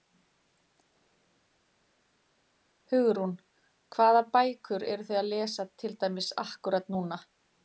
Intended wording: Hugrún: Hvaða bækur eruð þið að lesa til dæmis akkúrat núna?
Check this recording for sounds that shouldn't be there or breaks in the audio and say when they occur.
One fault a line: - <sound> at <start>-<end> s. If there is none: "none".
none